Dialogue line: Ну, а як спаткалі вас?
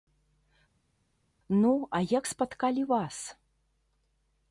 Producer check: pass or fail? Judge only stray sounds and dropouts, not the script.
pass